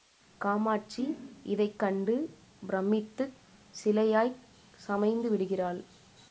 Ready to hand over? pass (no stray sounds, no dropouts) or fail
pass